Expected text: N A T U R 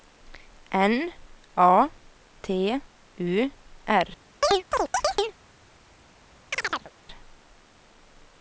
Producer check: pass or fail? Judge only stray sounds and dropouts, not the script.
fail